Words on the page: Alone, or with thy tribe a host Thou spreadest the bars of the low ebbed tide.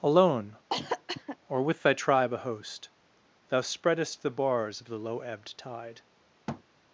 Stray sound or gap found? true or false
true